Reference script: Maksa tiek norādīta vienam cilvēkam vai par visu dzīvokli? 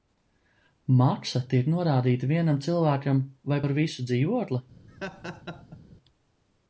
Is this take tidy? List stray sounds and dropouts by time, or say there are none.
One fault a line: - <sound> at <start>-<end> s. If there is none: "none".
- laugh at 4.9-5.8 s